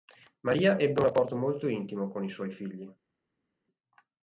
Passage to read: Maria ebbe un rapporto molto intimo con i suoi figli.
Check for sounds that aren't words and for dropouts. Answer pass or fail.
pass